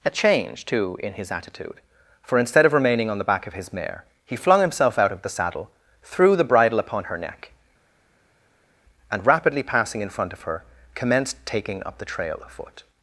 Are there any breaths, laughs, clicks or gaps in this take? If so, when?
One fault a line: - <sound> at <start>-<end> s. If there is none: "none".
none